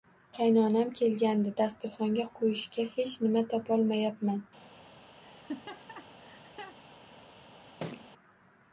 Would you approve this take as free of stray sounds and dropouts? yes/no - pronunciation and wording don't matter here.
no